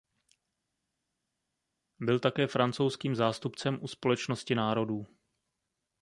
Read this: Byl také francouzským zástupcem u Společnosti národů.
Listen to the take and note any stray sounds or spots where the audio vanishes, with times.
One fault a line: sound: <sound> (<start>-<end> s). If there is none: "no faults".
no faults